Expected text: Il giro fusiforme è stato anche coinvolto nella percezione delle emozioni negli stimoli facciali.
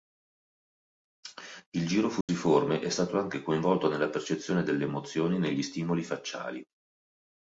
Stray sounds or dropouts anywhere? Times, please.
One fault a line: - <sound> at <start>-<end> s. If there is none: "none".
- dropout at 2.2-2.3 s